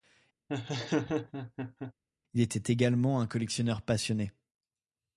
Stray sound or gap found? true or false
true